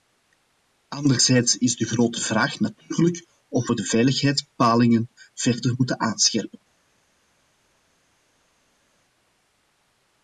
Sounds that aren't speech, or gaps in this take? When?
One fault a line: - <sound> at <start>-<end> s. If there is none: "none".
none